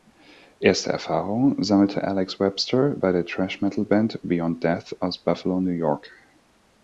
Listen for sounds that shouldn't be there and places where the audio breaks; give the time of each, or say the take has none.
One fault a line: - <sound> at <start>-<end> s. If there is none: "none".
none